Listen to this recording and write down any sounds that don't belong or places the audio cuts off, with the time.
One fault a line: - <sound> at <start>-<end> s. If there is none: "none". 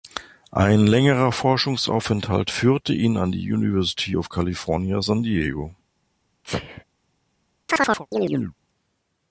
- sneeze at 6.4-6.8 s
- chirp at 7.7-8.5 s